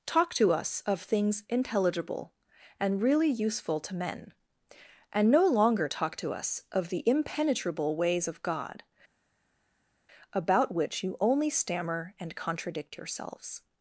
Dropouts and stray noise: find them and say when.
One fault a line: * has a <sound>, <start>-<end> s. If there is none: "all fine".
all fine